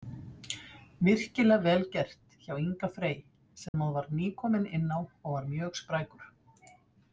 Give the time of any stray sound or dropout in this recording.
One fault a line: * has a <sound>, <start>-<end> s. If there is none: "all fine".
* has a dropout, 3.7-3.7 s